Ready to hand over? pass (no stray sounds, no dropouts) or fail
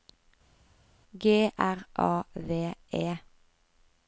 pass